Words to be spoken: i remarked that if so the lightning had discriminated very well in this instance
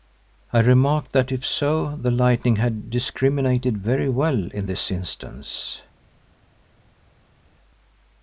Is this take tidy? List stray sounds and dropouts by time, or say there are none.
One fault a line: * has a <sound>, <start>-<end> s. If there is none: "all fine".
all fine